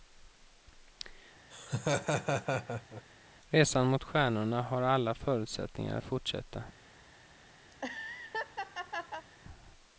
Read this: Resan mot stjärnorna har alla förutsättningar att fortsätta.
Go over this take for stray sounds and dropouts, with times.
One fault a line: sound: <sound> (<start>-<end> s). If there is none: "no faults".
sound: laugh (1.5-3.0 s)
sound: laugh (7.7-9.3 s)